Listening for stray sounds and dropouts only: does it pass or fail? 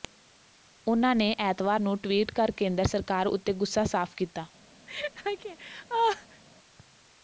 fail